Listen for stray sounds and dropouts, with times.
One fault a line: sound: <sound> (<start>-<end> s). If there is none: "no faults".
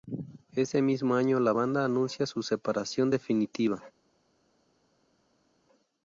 no faults